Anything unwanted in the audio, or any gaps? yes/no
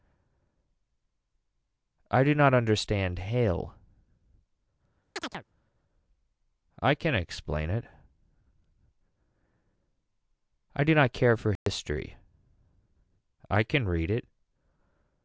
yes